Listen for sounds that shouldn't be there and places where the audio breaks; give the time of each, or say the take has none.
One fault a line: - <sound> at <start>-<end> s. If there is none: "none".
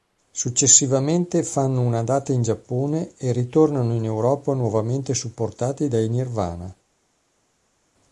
none